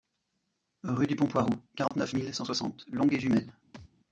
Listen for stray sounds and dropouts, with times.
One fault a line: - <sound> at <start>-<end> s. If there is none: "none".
- dropout at 1.9-1.9 s
- thud at 3.7-3.9 s